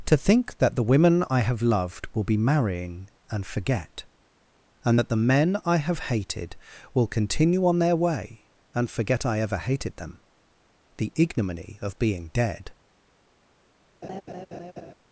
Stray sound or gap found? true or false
true